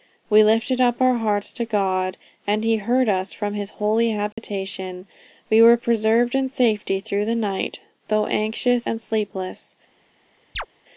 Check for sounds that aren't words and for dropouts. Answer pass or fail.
fail